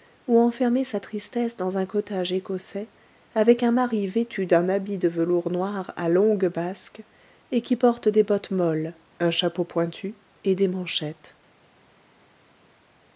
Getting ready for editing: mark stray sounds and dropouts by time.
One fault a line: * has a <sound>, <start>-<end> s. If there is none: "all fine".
all fine